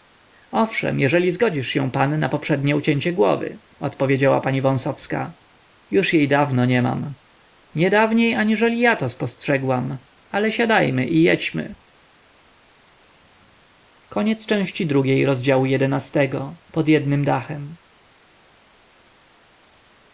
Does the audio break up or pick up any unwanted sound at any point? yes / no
no